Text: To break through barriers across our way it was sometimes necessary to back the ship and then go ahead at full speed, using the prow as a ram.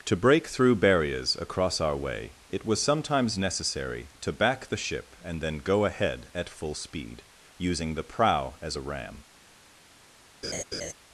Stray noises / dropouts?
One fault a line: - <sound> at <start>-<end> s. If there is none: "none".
- laugh at 10.4-10.9 s